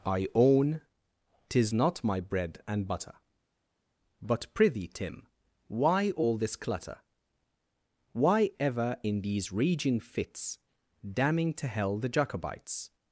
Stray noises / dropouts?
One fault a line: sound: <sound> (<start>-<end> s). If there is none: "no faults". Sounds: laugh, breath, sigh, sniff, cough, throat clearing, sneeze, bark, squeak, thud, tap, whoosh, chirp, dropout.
no faults